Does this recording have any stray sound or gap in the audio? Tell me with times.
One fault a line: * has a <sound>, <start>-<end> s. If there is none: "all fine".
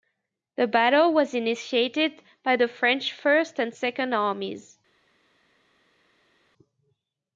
all fine